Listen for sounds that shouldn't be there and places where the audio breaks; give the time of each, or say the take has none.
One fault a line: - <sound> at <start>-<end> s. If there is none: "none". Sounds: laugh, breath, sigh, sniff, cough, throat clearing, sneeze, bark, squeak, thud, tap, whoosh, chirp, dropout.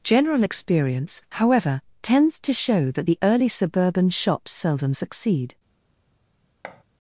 - thud at 6.6-6.8 s